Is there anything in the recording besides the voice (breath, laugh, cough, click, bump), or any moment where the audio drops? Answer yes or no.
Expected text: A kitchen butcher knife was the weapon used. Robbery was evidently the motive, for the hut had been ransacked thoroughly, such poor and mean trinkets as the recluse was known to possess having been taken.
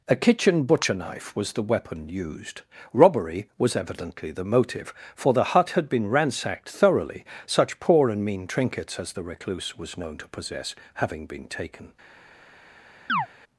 yes